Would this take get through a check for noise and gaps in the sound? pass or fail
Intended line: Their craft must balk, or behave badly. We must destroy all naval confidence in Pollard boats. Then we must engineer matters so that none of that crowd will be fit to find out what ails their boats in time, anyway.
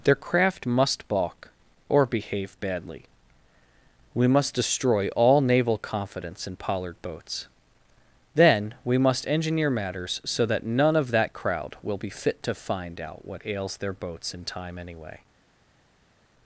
pass